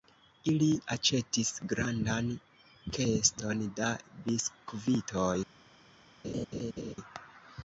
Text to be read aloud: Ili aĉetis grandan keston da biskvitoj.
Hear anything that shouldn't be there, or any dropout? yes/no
yes